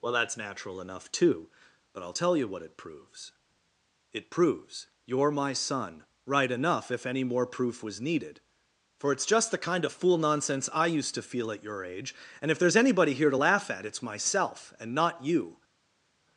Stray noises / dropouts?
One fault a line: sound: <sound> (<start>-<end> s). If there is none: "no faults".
no faults